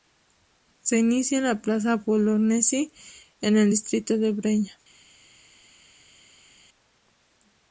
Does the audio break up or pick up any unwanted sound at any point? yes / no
no